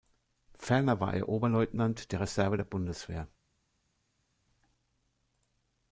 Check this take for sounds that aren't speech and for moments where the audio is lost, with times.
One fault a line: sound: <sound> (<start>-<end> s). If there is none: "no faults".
no faults